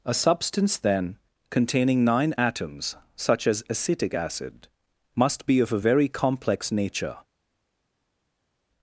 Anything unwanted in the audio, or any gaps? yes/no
no